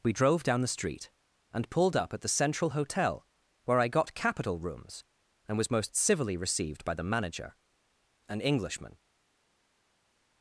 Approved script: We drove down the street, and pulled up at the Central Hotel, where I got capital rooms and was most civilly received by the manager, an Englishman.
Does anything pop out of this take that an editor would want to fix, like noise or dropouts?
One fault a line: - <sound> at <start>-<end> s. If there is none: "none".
none